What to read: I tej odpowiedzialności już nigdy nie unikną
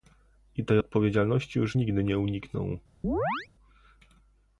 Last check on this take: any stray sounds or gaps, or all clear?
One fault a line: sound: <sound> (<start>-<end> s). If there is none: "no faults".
sound: chirp (3.0-3.5 s)